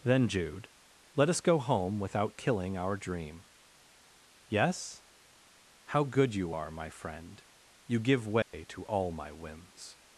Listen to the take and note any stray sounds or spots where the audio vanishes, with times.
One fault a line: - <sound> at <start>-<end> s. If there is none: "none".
- dropout at 8.4-8.5 s